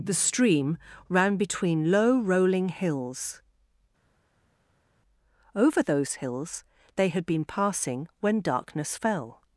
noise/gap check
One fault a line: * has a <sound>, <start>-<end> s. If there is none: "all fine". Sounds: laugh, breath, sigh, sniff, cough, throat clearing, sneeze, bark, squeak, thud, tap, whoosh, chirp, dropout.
all fine